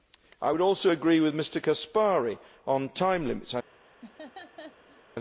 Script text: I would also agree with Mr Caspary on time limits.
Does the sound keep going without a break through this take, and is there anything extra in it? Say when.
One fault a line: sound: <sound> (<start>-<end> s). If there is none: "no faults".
sound: laugh (4.0-5.0 s)